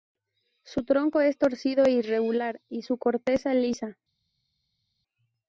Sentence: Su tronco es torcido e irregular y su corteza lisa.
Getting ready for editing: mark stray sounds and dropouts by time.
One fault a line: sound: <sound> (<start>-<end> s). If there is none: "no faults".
no faults